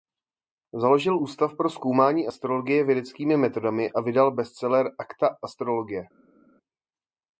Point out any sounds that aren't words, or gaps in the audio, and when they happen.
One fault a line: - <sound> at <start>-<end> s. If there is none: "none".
none